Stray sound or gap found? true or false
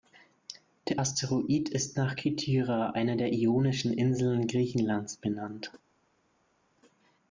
false